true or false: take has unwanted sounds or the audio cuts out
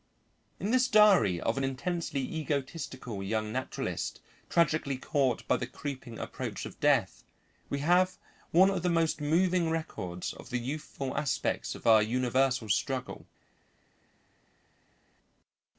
false